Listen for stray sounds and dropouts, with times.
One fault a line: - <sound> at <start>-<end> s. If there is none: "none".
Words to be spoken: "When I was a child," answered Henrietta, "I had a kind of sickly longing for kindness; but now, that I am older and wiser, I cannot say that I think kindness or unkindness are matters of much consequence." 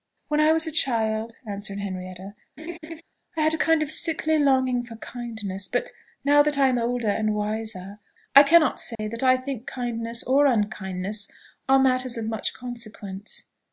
- laugh at 2.6-3.0 s
- dropout at 8.9-9.0 s